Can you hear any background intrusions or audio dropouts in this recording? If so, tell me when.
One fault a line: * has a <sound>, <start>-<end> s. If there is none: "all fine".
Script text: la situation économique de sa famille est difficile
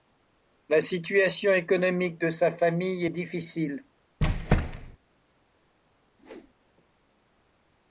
* has a squeak, 4.2-5.0 s
* has a whoosh, 6.2-6.5 s